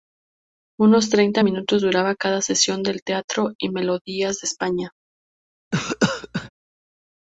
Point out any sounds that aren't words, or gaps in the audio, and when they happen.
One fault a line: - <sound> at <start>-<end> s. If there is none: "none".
- cough at 5.7-6.5 s